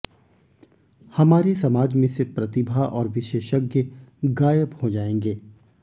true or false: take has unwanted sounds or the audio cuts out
false